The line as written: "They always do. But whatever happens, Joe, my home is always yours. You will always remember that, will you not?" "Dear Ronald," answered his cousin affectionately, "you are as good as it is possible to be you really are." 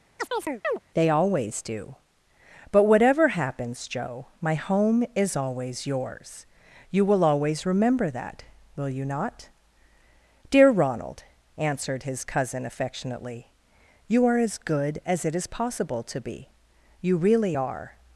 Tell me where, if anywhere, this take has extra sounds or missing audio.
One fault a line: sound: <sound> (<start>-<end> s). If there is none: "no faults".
sound: chirp (0.2-0.8 s)